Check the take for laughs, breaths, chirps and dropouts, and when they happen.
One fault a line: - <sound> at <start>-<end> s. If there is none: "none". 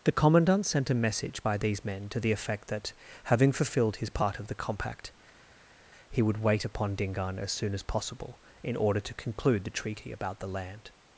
none